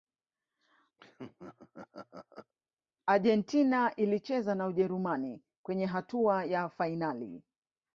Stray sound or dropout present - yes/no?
yes